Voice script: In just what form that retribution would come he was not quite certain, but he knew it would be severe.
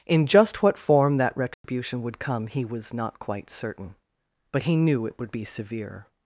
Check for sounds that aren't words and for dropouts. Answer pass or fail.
fail